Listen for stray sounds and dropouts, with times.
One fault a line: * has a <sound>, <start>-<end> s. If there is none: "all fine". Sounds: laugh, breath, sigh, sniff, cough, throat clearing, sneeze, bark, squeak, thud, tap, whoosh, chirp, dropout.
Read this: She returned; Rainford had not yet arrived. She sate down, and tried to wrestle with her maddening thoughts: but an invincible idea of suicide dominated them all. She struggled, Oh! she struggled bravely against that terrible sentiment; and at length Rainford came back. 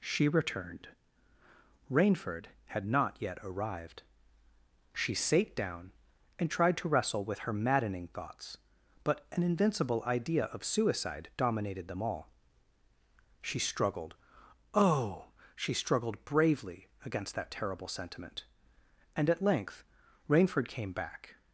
all fine